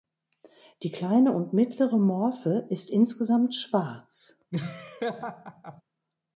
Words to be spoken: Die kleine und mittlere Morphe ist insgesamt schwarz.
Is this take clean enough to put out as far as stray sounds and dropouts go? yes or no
no